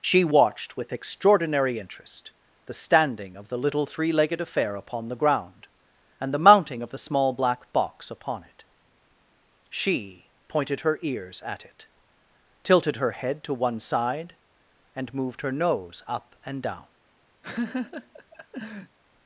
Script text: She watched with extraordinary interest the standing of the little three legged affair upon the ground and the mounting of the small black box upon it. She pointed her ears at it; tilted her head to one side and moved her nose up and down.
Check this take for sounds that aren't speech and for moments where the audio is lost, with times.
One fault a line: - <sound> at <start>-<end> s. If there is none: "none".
- laugh at 17.4-19.0 s